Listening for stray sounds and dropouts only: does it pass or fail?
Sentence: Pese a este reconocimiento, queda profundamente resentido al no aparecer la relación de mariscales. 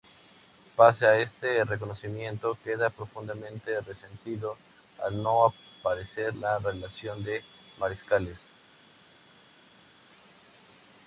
pass